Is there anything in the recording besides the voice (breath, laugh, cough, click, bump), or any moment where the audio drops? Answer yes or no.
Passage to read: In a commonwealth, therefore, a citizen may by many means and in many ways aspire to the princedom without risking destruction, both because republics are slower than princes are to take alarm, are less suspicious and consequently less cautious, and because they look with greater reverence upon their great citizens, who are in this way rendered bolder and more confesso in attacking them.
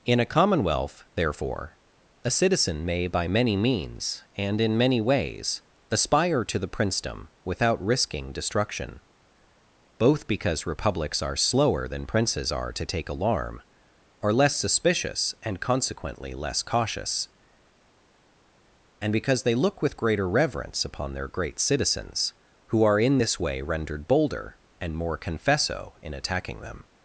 no